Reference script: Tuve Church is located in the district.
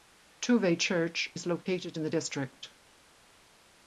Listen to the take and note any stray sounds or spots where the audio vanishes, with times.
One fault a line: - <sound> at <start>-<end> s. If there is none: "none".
none